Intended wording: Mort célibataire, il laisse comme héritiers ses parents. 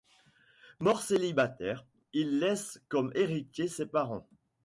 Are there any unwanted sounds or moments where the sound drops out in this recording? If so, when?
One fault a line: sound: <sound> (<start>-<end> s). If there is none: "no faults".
no faults